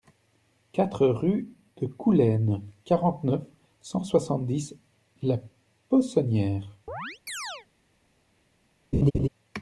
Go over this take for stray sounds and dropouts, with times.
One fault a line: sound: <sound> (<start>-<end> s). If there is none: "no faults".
sound: chirp (6.9-7.7 s)
sound: laugh (8.9-9.3 s)